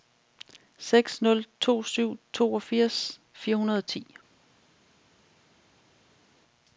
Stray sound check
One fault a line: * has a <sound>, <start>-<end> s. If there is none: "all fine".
all fine